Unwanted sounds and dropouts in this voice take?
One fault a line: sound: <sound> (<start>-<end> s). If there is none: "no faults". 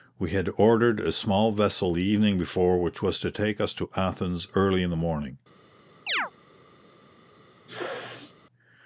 sound: chirp (6.1-6.3 s)
sound: sneeze (7.7-8.3 s)